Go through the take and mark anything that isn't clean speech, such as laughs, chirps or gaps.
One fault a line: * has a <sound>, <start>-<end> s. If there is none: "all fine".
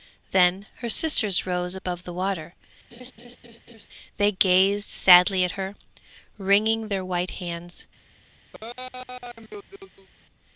* has a laugh, 2.9-3.9 s
* has a laugh, 8.5-10.1 s